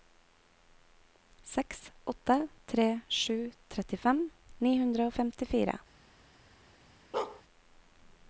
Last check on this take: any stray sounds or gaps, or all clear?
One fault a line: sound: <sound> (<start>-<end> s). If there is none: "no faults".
sound: bark (7.1-7.4 s)